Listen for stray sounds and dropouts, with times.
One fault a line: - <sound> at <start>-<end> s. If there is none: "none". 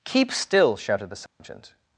- dropout at 1.3-1.4 s